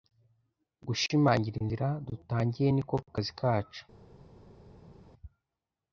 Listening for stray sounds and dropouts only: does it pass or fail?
pass